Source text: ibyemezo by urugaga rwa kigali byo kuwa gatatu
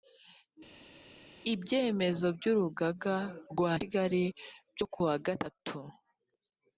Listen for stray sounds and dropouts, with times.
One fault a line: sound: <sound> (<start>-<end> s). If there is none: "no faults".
no faults